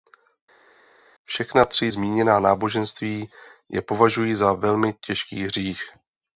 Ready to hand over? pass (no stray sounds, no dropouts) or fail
pass